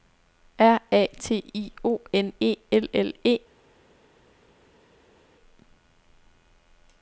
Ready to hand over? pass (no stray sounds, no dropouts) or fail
pass